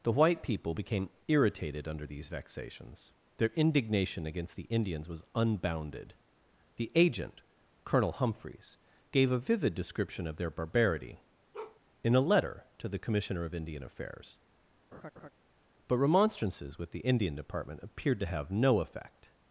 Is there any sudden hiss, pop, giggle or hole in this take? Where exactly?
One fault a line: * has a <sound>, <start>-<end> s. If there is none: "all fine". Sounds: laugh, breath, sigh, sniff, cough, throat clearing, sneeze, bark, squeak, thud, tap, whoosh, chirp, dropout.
* has a bark, 11.5-11.8 s
* has a laugh, 14.9-15.3 s